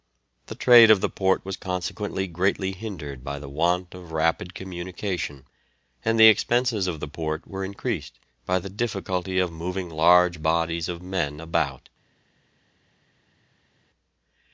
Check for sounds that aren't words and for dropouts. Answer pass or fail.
pass